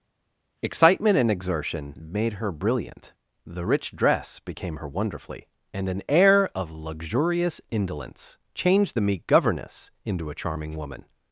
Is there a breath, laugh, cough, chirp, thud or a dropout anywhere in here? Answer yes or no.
no